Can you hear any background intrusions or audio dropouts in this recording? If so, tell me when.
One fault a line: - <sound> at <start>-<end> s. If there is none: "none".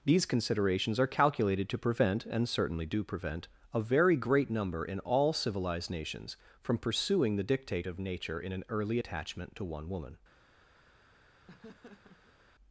- laugh at 11.5-12.4 s